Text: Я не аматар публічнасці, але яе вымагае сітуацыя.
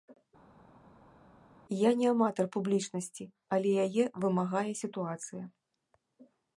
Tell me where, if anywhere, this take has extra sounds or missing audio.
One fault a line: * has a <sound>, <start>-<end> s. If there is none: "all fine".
all fine